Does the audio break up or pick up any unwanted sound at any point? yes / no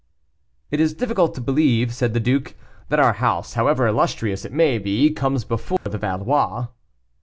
yes